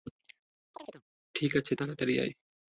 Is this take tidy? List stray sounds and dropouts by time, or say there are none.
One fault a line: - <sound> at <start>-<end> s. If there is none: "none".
- chirp at 0.7-1.0 s